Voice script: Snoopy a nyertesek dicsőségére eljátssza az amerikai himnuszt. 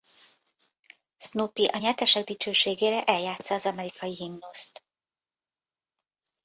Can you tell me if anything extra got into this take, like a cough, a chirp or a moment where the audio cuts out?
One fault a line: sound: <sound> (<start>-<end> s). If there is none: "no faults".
no faults